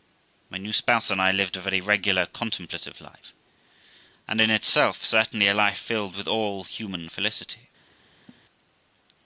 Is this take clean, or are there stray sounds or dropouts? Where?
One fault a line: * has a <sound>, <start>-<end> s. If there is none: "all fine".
* has a laugh, 8.3-8.4 s